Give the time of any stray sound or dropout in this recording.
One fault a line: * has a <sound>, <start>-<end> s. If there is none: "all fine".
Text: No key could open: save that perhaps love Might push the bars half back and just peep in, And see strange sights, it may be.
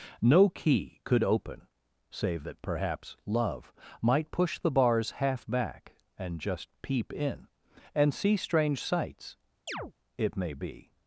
* has a chirp, 9.7-9.9 s